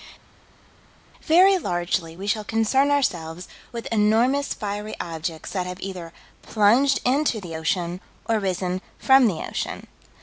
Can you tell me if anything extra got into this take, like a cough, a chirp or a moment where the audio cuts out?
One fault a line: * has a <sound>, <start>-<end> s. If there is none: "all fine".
all fine